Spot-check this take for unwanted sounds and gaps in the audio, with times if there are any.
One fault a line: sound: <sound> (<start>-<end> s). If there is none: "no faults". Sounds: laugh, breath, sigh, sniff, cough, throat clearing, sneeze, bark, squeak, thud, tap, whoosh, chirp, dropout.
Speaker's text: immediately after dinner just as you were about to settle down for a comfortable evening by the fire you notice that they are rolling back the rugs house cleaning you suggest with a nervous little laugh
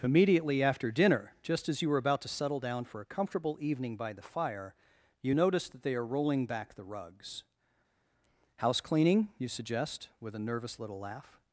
no faults